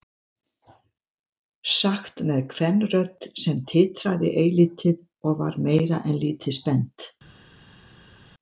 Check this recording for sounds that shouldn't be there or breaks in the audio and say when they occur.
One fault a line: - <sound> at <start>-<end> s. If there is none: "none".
none